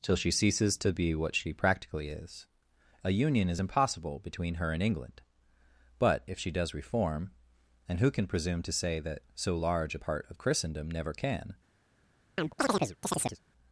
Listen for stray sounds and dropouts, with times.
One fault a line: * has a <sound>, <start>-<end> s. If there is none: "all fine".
* has a chirp, 12.4-13.4 s